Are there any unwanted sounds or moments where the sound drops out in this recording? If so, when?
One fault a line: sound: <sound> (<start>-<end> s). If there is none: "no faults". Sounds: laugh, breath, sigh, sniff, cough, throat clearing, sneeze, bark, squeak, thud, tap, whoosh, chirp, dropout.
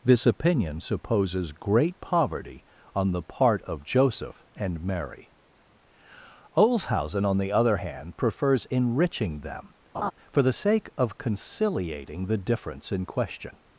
sound: laugh (9.9-10.1 s)